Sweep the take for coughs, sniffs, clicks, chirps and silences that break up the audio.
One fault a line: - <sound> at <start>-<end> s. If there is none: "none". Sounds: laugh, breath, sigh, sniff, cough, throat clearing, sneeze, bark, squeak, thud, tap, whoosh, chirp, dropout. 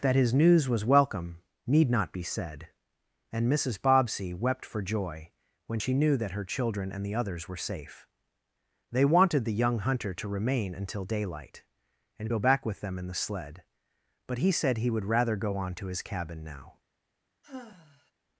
- sigh at 17.4-18.1 s